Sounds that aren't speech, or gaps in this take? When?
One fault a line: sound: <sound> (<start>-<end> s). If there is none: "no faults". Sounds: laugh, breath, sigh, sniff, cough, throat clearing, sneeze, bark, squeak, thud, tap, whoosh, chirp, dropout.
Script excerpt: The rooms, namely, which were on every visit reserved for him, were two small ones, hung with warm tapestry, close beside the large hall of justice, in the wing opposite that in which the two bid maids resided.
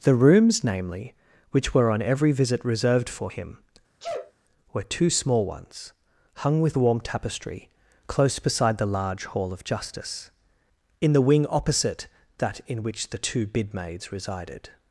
sound: sneeze (4.0-4.3 s)